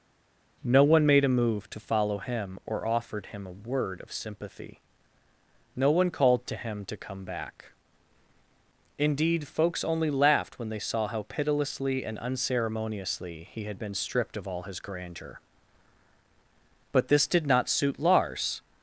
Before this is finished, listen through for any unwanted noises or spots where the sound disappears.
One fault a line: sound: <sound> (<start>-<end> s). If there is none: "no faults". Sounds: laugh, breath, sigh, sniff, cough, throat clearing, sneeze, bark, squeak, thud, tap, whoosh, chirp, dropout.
no faults